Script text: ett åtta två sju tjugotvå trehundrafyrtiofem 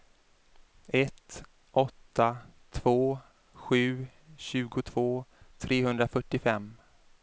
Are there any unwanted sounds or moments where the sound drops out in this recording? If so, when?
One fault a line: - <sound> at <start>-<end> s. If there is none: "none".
none